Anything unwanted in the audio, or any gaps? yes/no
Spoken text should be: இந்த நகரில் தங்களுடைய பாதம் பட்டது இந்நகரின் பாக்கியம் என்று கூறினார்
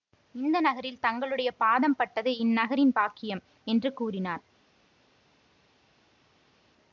no